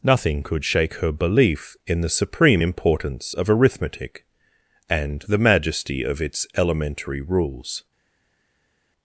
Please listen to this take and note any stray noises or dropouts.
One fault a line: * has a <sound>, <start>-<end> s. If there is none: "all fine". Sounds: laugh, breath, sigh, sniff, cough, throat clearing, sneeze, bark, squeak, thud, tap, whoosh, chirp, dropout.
all fine